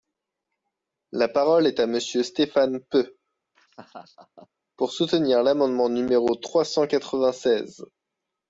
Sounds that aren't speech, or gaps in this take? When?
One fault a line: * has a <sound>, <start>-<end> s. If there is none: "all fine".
* has a laugh, 3.5-4.5 s